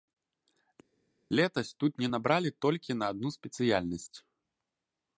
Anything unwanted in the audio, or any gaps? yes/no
no